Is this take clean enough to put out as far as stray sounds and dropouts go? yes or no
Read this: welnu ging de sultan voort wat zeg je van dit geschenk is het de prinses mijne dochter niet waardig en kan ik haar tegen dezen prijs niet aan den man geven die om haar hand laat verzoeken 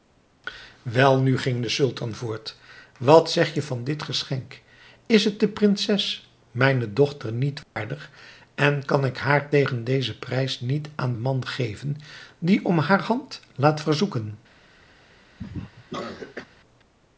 no